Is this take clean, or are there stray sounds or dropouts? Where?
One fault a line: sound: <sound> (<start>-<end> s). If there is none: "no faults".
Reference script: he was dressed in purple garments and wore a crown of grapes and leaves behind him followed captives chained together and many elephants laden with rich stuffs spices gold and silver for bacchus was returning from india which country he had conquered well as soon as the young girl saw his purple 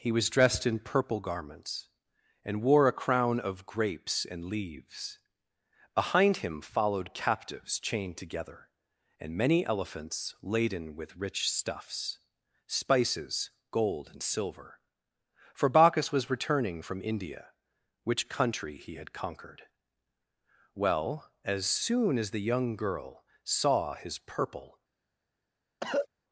sound: cough (25.8-26.1 s)